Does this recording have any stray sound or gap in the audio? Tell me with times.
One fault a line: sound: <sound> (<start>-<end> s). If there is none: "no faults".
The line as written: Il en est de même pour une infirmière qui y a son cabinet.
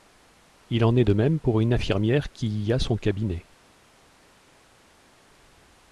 no faults